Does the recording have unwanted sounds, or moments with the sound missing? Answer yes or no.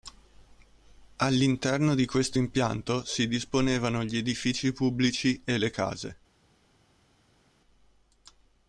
no